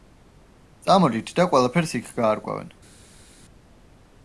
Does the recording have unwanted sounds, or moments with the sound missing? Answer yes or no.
no